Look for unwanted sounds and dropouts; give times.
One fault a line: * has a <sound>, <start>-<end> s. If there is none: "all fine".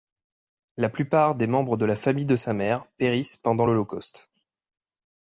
all fine